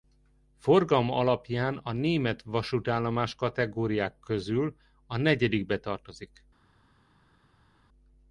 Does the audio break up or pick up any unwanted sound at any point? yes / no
no